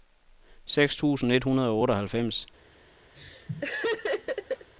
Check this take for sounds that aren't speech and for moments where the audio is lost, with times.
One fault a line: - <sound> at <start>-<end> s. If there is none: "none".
- laugh at 3.1-4.7 s